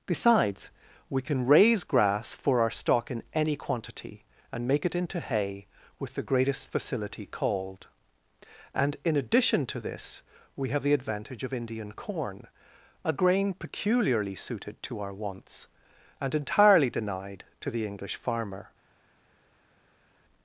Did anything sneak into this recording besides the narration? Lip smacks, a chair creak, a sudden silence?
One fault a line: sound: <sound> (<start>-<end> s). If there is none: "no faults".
no faults